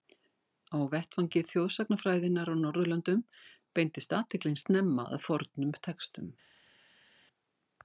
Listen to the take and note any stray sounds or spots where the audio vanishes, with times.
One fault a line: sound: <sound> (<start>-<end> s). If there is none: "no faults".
no faults